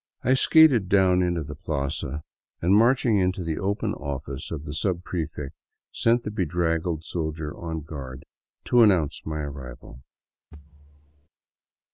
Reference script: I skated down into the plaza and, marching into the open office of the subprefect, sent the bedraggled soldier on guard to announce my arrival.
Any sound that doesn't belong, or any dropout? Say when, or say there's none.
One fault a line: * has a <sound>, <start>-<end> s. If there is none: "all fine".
* has a thud, 10.5-11.3 s